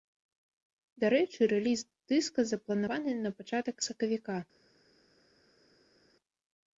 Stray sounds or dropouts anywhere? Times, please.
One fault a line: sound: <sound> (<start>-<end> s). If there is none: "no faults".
no faults